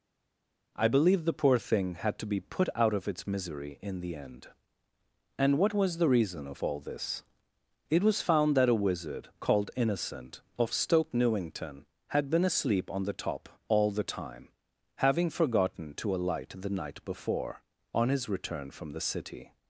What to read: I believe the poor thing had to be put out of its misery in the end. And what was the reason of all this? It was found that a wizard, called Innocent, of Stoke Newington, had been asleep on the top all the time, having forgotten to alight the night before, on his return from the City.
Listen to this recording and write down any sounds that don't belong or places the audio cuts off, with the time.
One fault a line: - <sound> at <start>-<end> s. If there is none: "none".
none